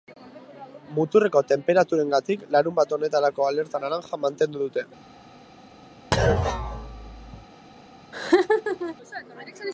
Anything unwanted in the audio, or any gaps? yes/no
yes